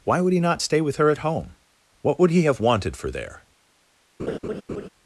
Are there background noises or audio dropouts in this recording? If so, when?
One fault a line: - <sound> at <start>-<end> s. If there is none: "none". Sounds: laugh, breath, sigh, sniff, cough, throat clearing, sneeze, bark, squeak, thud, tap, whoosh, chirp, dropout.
- laugh at 4.2-4.9 s